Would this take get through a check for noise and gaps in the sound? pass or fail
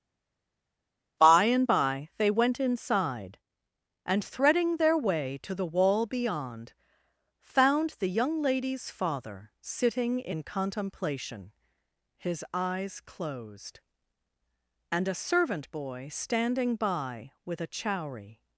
pass